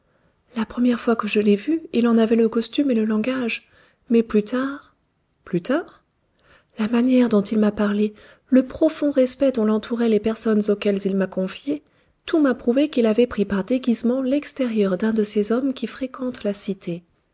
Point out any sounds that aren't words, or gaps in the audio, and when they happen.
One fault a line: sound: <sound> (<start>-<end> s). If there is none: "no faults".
no faults